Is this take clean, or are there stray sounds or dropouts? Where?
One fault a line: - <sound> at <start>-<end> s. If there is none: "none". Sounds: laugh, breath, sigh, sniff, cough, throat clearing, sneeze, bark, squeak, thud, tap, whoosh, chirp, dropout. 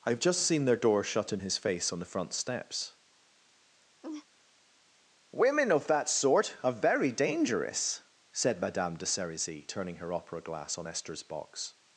- laugh at 4.0-4.3 s